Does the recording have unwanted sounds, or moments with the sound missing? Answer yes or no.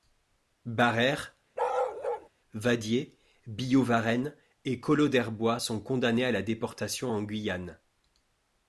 yes